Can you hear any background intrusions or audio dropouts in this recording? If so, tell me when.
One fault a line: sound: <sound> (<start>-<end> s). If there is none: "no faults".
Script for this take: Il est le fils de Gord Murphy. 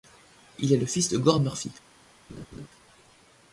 sound: laugh (2.3-2.7 s)